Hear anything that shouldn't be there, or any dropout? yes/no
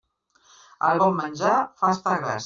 no